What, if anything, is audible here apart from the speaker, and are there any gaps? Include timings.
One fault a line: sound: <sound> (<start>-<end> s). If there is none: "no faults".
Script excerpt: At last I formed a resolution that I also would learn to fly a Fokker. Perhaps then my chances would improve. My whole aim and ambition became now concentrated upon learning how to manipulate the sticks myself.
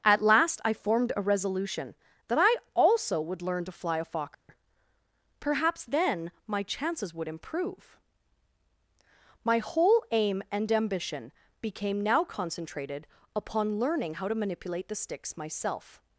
sound: dropout (4.3-4.5 s)